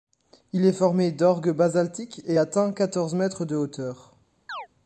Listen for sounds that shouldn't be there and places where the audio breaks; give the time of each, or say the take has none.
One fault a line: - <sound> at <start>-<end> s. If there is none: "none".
- chirp at 4.5-4.7 s